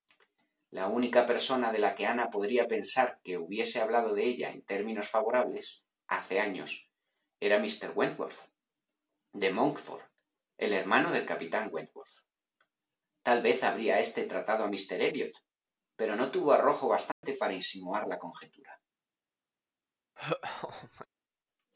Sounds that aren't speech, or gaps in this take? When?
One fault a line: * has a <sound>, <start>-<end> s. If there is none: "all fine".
* has a dropout, 17.1-17.2 s
* has a laugh, 20.2-21.1 s